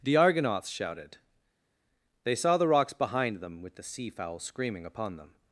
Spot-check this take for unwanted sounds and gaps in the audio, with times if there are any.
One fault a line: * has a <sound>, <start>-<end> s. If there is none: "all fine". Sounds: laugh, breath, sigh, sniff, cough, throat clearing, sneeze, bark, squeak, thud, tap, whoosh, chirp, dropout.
all fine